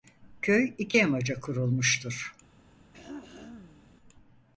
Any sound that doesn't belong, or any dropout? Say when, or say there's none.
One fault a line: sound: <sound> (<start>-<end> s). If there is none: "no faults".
sound: throat clearing (2.9-3.9 s)